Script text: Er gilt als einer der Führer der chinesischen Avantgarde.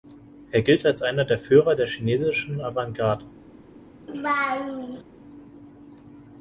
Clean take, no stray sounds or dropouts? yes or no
no